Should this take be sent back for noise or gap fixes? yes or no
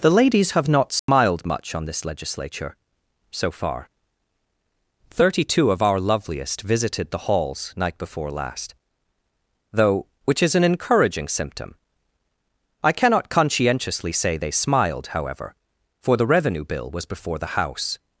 yes